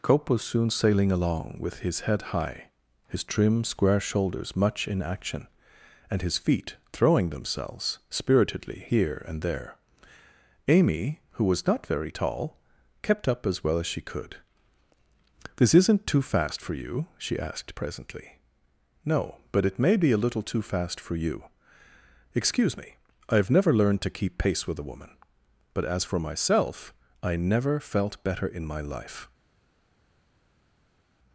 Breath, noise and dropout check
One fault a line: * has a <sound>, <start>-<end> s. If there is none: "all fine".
all fine